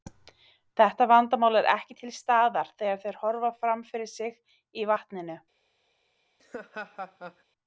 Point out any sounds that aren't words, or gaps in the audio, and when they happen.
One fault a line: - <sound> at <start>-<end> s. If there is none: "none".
- laugh at 6.4-7.4 s